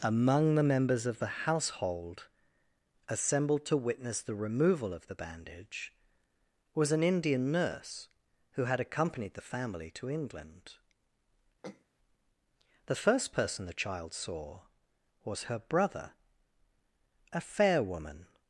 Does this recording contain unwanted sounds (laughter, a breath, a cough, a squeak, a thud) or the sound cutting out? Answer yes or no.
yes